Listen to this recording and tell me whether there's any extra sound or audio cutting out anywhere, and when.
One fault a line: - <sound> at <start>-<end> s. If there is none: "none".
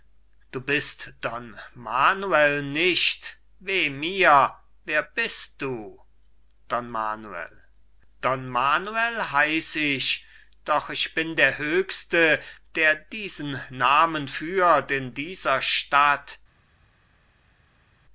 none